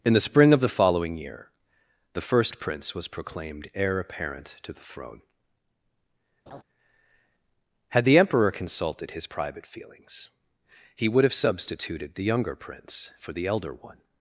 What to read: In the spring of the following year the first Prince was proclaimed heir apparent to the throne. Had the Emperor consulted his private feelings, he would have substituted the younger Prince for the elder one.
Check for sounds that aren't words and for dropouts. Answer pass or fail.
fail